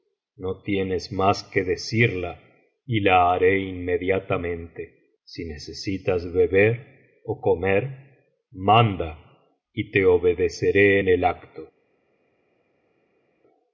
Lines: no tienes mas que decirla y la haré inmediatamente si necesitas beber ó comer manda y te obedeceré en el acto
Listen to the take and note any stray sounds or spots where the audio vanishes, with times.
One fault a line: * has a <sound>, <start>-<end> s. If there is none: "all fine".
all fine